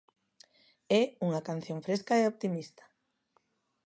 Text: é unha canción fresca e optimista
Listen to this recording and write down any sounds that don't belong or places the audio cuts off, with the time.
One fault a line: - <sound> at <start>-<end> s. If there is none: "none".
none